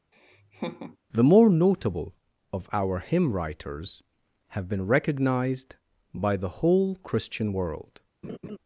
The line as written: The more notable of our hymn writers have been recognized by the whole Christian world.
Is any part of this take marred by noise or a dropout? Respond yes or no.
yes